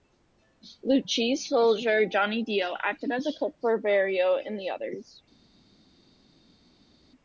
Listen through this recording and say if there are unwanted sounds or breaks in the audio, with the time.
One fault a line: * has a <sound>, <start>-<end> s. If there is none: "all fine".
all fine